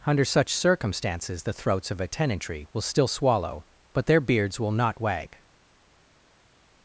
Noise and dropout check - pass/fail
pass